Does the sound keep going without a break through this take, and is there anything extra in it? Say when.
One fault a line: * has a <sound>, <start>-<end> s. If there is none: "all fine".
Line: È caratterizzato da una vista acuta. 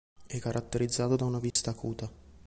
* has a dropout, 1.5-1.6 s